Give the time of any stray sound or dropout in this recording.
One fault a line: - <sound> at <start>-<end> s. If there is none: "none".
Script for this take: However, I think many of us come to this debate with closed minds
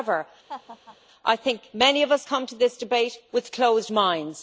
- laugh at 0.5-1.0 s